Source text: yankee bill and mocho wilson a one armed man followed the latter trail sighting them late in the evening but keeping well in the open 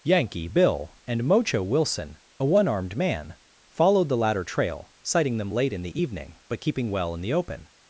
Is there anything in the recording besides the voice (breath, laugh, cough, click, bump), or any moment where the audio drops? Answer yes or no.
no